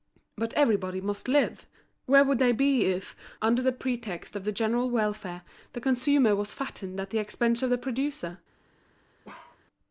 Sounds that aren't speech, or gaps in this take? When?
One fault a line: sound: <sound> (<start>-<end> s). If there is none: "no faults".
sound: bark (9.2-9.6 s)